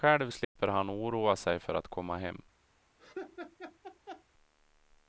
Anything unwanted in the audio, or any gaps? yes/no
yes